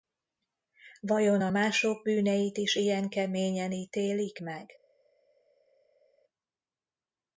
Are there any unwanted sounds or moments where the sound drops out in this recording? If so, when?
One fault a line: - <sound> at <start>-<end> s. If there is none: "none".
none